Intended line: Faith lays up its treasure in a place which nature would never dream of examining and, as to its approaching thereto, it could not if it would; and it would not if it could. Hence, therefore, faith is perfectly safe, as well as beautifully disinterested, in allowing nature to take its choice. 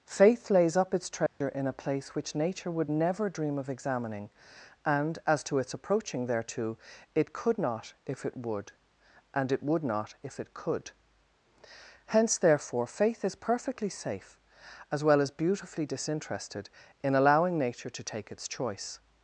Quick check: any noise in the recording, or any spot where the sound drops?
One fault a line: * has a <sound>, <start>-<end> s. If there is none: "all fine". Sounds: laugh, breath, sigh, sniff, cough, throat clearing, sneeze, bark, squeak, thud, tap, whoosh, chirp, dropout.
* has a dropout, 1.3-1.4 s